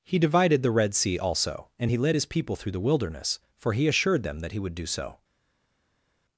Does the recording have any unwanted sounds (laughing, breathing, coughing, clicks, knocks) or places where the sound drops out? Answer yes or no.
no